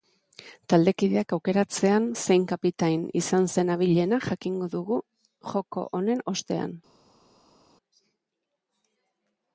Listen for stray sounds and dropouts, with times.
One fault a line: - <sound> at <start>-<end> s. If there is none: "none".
none